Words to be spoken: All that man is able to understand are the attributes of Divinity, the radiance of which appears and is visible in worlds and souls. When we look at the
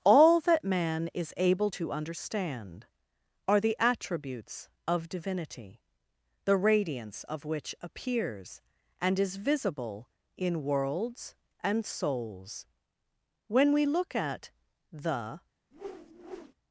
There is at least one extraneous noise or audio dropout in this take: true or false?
true